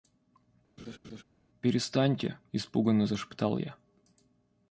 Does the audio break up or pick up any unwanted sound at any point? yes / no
yes